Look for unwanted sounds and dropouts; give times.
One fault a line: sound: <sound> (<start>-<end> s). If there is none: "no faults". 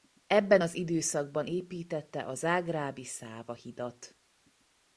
no faults